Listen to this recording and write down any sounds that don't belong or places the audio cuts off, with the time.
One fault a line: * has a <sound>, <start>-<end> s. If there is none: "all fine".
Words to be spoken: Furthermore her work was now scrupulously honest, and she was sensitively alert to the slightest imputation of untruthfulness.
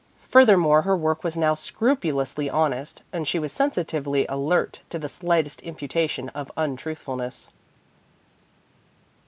all fine